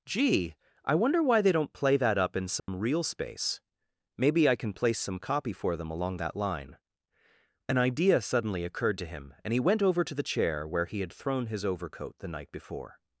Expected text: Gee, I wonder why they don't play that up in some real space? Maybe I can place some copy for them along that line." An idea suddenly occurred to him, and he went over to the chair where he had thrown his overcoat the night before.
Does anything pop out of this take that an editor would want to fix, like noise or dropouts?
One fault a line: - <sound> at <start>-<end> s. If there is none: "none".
- dropout at 2.6-2.7 s